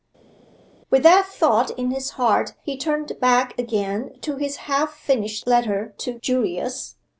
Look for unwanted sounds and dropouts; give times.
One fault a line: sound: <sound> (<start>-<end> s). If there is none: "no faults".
no faults